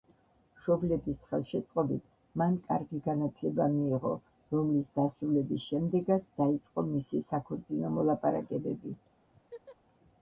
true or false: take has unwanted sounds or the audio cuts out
true